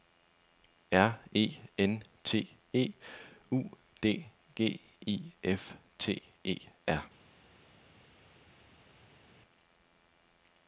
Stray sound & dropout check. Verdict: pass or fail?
pass